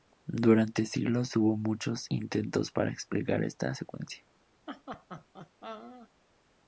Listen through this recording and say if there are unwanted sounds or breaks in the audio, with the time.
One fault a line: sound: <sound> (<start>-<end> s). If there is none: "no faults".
sound: laugh (4.7-6.1 s)